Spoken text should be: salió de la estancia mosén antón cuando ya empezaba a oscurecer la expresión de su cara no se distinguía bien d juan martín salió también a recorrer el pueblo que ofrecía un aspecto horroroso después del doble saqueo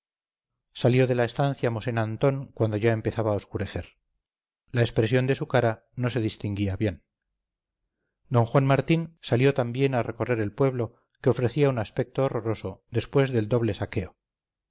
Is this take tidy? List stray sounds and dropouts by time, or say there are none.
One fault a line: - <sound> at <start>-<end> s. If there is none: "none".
none